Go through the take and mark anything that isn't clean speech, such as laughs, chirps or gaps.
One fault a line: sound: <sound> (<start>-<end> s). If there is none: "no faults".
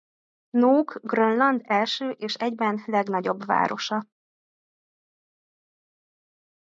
no faults